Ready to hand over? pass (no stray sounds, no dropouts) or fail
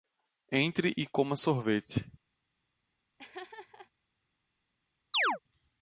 fail